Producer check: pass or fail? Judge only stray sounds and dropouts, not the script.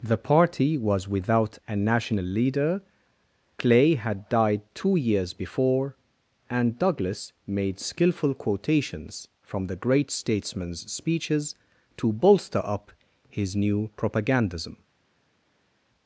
pass